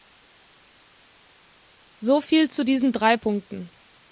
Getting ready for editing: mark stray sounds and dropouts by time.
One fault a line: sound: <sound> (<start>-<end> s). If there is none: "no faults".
no faults